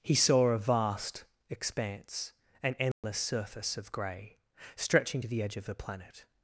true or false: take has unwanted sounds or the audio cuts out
true